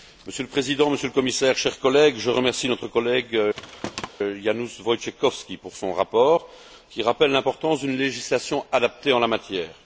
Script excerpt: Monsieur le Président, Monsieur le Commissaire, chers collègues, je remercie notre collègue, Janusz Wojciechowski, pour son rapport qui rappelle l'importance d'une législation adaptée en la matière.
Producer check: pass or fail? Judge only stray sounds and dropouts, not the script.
fail